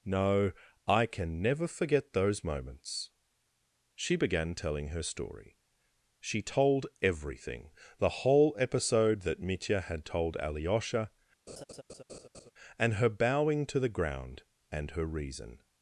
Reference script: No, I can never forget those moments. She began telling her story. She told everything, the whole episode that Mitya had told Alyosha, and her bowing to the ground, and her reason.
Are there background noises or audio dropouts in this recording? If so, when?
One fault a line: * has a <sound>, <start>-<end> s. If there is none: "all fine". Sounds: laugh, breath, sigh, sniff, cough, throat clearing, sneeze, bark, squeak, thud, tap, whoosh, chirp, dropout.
* has a laugh, 11.5-12.5 s